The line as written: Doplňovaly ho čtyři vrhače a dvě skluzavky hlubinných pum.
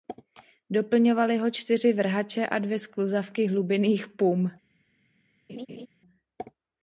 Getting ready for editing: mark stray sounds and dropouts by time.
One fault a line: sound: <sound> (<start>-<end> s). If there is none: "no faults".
sound: laugh (5.5-5.9 s)